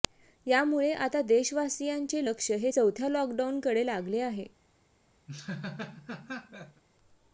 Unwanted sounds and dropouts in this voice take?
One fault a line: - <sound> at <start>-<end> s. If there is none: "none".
- laugh at 5.3-6.8 s